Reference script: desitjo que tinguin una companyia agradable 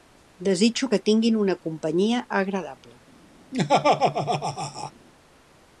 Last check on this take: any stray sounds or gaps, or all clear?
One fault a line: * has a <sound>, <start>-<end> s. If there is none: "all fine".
* has a laugh, 3.5-4.9 s